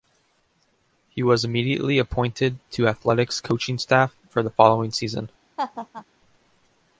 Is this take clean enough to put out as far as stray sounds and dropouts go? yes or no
no